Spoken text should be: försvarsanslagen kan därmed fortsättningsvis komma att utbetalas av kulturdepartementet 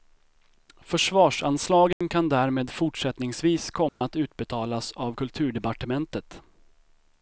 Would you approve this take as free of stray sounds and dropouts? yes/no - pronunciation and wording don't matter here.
no